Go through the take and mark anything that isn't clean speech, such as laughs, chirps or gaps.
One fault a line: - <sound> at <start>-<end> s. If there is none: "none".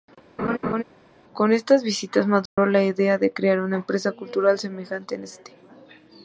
- laugh at 0.4-0.8 s
- dropout at 2.5-2.6 s